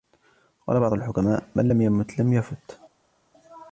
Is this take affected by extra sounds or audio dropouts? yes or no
no